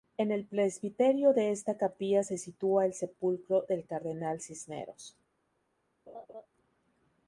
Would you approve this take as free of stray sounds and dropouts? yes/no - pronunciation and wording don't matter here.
no